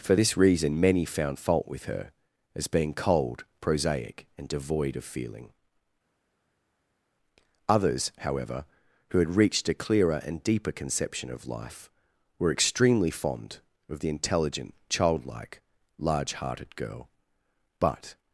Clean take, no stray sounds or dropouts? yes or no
yes